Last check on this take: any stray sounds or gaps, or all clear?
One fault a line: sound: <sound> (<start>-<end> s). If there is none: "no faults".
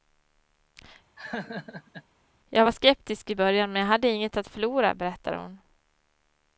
sound: laugh (1.2-2.0 s)